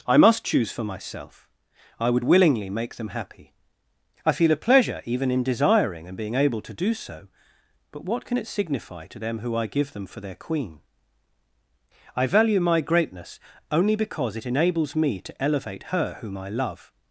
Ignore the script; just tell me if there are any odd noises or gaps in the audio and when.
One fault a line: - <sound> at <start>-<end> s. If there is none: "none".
none